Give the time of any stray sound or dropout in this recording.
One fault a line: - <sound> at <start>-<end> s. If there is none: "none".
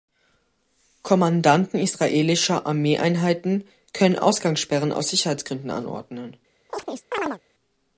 - chirp at 6.7-7.4 s